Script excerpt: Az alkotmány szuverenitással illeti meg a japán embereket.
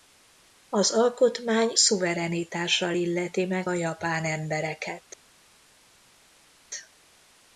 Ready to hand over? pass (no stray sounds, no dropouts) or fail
pass